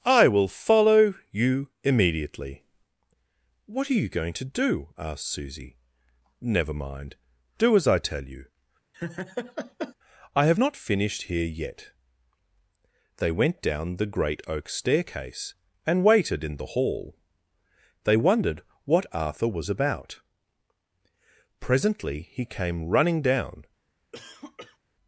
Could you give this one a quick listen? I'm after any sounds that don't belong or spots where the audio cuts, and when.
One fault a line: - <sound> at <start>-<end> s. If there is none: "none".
- laugh at 8.9-10.0 s
- cough at 24.1-24.8 s